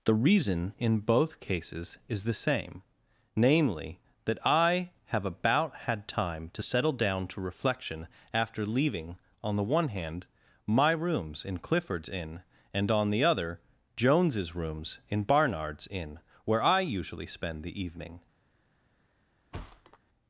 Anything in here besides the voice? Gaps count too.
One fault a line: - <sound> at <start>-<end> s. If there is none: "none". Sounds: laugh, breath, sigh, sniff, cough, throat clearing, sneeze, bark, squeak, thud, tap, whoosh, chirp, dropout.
- thud at 19.5-20.0 s